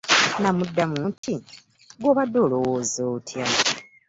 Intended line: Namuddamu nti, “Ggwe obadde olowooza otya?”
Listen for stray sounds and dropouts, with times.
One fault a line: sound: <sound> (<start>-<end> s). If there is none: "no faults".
sound: dropout (1.2-1.2 s)